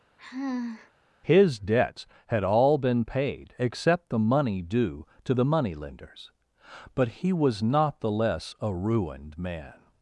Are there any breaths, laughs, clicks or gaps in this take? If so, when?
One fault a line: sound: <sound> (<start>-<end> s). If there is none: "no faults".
sound: sigh (0.2-0.9 s)